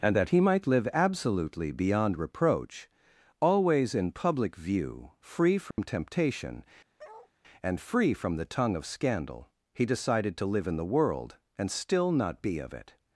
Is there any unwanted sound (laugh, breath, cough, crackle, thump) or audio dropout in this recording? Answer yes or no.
yes